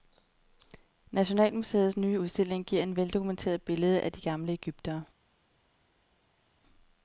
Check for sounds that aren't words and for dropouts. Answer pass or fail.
pass